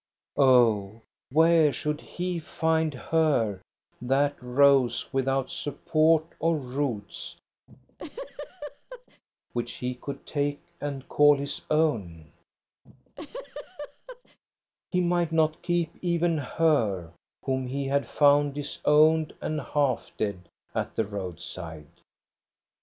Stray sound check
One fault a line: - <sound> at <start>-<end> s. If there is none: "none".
- laugh at 7.7-9.2 s
- laugh at 12.9-14.4 s